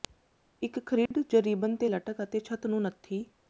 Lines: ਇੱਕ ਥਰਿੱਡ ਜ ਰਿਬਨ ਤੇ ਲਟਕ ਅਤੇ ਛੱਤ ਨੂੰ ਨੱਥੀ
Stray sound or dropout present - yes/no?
yes